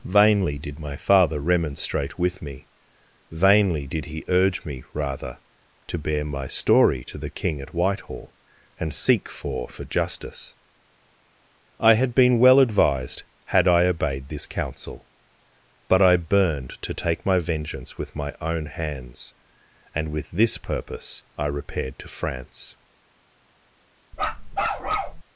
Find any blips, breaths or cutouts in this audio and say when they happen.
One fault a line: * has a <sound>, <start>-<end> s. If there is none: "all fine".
* has a bark, 24.1-25.2 s